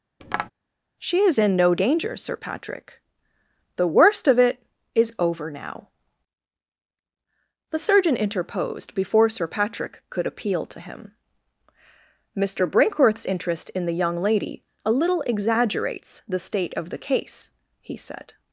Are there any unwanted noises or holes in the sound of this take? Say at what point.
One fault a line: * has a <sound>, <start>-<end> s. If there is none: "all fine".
* has a tap, 0.2-0.5 s